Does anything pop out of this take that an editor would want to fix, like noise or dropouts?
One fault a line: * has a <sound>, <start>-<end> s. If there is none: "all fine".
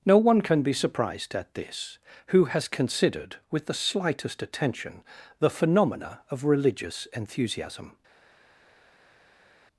all fine